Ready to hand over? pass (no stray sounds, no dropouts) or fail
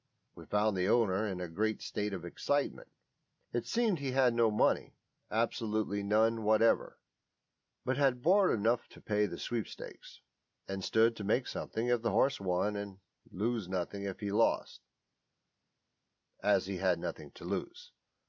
pass